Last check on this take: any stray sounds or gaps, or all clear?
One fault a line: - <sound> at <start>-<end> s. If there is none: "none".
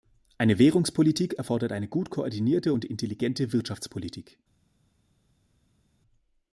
none